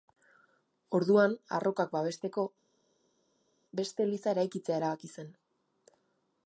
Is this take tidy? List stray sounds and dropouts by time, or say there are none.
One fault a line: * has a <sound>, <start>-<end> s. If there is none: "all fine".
all fine